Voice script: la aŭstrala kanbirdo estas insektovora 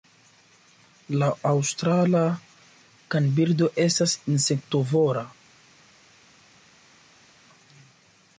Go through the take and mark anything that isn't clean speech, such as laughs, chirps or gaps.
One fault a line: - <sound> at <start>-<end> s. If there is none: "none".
none